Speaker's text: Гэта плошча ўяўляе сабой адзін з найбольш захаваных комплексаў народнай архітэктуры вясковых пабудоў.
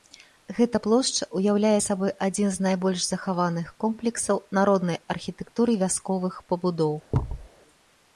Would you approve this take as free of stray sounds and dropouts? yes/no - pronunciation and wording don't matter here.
no